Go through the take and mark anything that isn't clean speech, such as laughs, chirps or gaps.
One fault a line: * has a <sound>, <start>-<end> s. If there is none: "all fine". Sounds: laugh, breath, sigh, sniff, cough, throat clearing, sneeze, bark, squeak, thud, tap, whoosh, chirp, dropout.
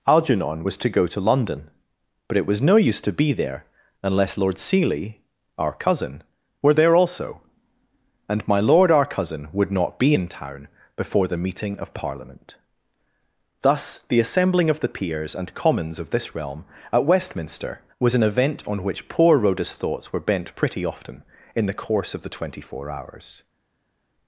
all fine